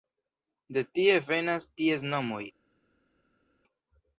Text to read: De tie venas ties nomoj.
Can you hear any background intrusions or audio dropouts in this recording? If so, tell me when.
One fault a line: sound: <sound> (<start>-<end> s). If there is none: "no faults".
no faults